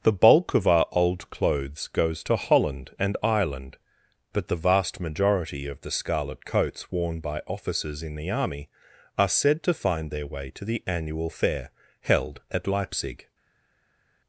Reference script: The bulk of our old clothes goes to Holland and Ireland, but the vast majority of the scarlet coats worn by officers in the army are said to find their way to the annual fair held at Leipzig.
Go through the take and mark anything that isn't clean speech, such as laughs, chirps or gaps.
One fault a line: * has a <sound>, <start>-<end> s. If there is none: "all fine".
all fine